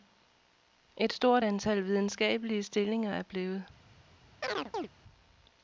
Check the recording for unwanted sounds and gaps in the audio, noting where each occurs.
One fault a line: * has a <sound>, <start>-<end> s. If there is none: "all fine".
* has a chirp, 4.4-4.9 s